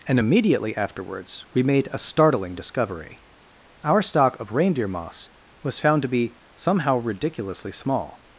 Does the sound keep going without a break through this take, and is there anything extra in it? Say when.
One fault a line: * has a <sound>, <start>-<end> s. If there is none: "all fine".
all fine